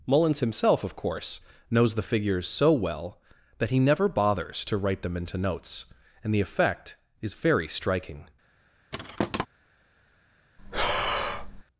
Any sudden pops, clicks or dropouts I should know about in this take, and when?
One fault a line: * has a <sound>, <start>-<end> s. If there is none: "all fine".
* has a thud, 8.9-9.5 s
* has a breath, 10.6-11.6 s